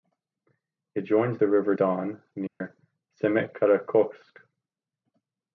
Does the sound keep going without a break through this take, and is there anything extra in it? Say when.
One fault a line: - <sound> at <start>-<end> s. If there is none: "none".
- dropout at 2.5-2.6 s